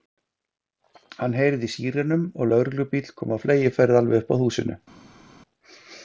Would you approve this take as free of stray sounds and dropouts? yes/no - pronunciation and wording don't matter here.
yes